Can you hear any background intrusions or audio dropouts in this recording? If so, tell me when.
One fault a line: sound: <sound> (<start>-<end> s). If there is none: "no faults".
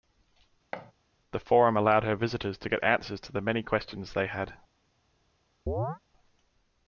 sound: thud (0.7-0.9 s)
sound: chirp (5.7-6.0 s)